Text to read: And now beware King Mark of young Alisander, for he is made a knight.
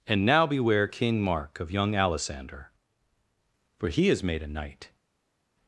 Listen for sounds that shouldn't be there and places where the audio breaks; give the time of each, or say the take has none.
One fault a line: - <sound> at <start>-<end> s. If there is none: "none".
none